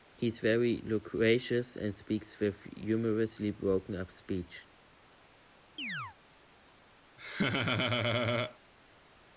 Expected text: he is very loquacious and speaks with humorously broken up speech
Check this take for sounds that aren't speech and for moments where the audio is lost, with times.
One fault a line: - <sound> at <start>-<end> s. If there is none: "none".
- chirp at 5.8-6.2 s
- laugh at 7.2-8.6 s